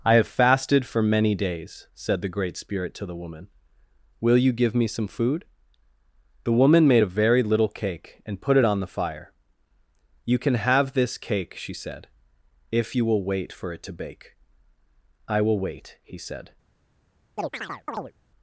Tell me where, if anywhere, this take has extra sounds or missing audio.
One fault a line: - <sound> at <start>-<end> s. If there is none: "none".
- chirp at 17.4-18.1 s